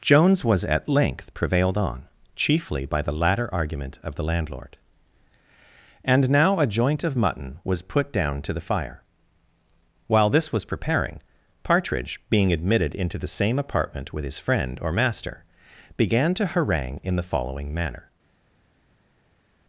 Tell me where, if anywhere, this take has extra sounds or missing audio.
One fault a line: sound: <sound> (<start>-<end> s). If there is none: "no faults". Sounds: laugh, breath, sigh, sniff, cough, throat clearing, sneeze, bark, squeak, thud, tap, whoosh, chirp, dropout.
no faults